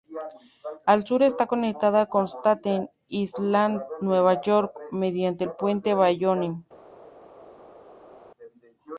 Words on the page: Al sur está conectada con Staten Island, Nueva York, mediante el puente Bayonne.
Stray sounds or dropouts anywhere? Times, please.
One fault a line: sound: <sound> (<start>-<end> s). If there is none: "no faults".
no faults